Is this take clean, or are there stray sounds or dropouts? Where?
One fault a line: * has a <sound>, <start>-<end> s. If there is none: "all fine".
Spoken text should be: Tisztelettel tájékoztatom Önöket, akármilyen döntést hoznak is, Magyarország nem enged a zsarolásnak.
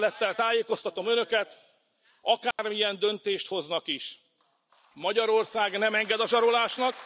* has a dropout, 2.5-2.6 s